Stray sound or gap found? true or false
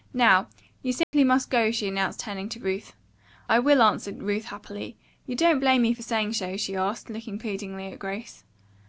true